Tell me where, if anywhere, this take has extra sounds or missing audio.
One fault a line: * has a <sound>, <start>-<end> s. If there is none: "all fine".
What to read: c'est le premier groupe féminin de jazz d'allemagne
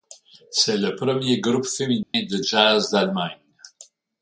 * has a dropout, 2.0-2.1 s